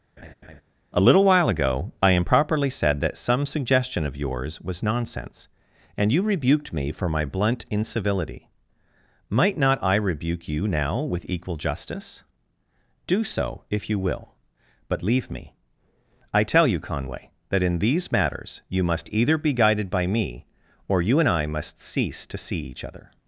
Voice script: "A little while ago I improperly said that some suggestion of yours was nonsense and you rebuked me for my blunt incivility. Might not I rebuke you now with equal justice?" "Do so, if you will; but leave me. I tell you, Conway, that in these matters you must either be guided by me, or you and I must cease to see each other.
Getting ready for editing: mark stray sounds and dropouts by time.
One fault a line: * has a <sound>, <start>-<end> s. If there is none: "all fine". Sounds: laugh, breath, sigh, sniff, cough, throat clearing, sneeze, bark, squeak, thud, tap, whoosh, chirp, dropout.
* has a laugh, 0.2-0.6 s